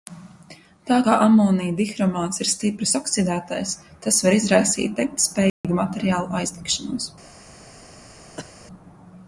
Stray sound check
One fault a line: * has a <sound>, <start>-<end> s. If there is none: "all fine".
* has a dropout, 5.5-5.6 s
* has a cough, 8.4-8.5 s